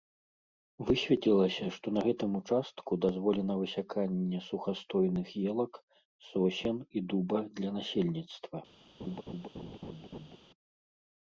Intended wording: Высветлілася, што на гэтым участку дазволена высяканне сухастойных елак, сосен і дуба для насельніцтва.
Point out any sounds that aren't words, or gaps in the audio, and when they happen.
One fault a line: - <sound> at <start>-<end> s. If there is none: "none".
- laugh at 9.0-10.4 s